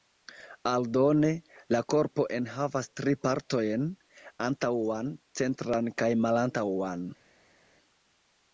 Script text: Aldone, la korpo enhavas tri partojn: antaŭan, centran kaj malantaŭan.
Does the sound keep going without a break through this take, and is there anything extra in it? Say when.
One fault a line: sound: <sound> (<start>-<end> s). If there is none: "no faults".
no faults